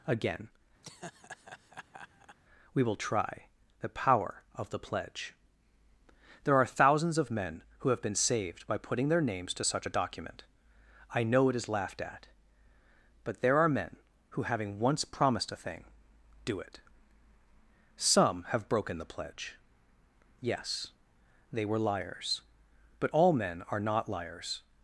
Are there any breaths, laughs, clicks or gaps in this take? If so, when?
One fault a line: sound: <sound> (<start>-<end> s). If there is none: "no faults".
sound: laugh (0.8-2.4 s)